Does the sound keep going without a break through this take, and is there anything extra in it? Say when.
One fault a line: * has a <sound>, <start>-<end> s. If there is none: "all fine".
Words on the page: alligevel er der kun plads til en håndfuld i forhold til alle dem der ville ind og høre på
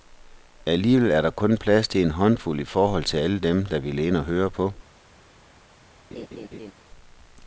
* has a laugh, 6.1-6.7 s